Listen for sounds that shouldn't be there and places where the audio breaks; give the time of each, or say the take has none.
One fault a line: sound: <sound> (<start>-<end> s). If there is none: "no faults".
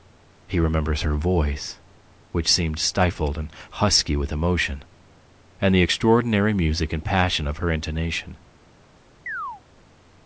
sound: chirp (9.3-9.6 s)